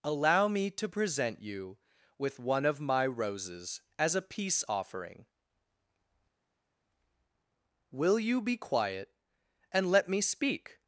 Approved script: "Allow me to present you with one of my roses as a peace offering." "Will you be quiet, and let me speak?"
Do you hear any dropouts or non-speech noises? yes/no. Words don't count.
no